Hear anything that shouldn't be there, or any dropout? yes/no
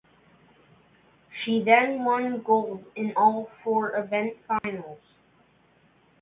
yes